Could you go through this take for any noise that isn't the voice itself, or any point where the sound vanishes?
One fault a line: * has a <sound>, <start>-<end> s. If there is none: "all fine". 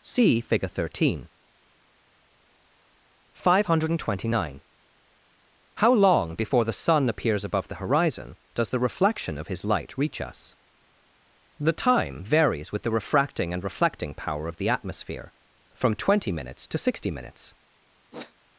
* has a sniff, 18.1-18.3 s